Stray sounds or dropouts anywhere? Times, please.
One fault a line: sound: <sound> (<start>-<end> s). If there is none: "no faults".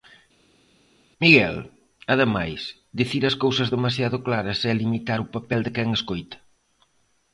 no faults